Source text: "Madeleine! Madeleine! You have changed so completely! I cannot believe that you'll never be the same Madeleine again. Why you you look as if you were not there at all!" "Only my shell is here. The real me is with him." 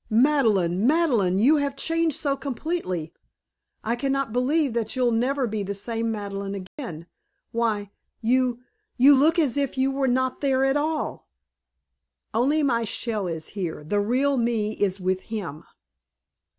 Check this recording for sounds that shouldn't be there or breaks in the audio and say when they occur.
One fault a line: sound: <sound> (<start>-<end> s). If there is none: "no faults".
sound: dropout (6.7-6.8 s)